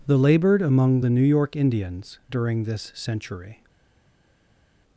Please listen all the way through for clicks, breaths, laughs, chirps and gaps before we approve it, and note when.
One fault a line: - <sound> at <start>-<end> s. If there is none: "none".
none